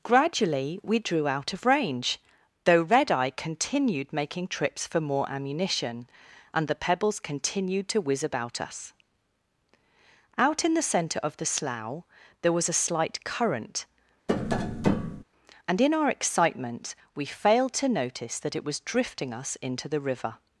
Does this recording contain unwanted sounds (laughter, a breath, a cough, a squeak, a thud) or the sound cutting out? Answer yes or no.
yes